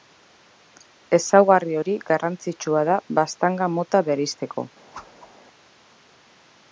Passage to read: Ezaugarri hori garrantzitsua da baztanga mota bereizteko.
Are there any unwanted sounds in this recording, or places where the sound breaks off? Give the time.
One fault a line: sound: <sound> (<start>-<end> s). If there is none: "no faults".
sound: whoosh (4.9-5.3 s)